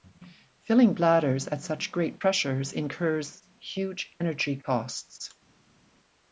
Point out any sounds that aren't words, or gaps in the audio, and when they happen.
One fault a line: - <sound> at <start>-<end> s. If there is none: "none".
none